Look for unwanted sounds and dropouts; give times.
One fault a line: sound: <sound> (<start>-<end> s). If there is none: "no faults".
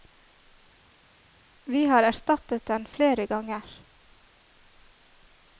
no faults